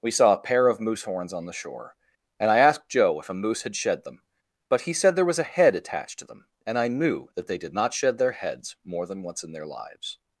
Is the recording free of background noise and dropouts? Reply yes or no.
yes